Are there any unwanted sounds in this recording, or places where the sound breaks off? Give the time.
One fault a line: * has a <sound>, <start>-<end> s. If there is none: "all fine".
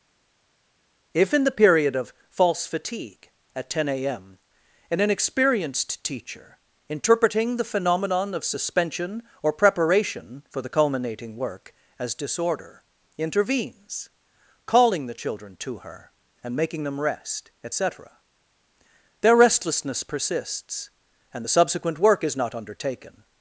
all fine